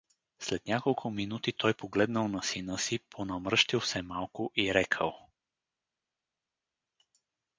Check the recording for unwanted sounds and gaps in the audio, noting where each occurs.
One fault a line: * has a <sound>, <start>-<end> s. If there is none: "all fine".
all fine